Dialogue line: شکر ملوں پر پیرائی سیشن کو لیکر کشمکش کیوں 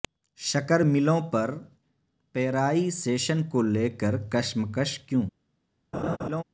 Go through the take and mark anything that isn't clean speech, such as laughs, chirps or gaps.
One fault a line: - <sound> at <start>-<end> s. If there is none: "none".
- laugh at 5.9-6.4 s